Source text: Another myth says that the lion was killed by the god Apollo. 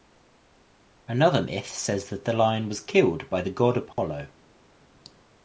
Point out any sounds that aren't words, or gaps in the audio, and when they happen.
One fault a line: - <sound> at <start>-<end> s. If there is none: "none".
- dropout at 3.9-4.0 s